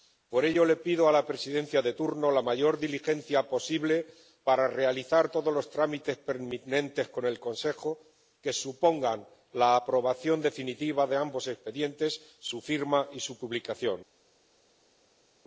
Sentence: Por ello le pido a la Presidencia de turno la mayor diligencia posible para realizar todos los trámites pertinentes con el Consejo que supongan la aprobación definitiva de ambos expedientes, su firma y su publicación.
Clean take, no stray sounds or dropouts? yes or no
yes